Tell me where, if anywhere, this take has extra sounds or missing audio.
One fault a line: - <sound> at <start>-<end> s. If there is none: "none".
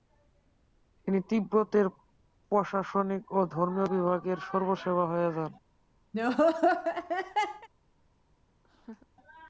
- laugh at 6.1-7.7 s
- laugh at 8.6-9.1 s